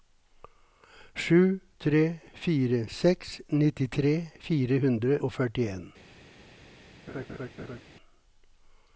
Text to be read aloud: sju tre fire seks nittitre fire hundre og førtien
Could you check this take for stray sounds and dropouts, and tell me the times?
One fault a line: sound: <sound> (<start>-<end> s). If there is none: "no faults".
sound: laugh (7.1-7.8 s)